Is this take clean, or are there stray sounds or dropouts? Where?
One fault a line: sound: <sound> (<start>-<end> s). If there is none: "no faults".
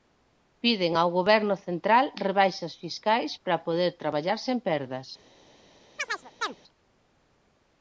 sound: chirp (6.0-6.6 s)